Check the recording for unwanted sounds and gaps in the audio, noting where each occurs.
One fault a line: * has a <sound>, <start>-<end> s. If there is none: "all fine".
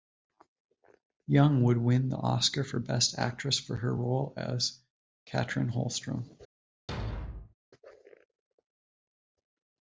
* has a thud, 6.9-7.5 s